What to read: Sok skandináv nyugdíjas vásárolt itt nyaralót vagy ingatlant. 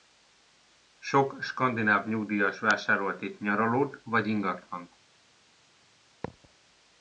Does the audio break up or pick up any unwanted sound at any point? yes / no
yes